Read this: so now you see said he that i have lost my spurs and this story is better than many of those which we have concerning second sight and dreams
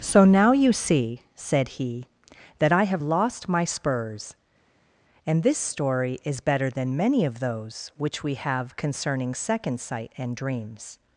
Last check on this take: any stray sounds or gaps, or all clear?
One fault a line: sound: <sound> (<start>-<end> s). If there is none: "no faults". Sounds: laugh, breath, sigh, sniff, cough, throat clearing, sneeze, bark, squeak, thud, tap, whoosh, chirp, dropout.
no faults